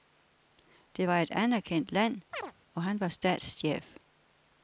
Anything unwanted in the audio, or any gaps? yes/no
yes